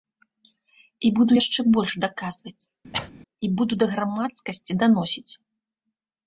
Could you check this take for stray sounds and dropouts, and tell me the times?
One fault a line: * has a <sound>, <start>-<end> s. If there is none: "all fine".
* has a cough, 2.9-3.1 s